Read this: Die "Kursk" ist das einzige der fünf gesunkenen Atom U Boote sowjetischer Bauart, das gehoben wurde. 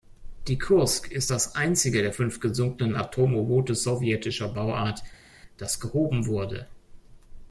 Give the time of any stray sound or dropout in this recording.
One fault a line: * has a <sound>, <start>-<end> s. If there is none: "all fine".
all fine